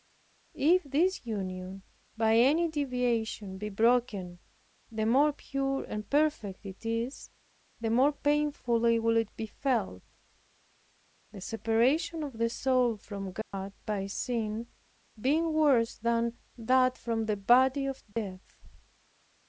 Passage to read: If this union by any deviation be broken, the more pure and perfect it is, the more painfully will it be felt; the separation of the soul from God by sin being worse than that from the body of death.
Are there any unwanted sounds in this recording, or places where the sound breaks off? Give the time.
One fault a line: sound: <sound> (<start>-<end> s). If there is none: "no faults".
sound: dropout (13.4-13.5 s)
sound: dropout (18.1-18.2 s)